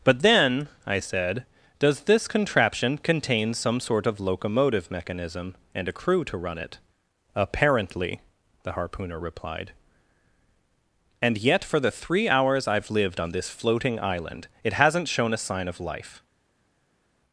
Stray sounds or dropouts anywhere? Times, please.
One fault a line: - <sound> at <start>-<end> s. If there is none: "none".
none